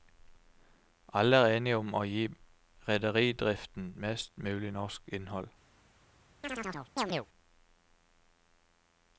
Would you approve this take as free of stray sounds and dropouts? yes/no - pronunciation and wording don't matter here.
no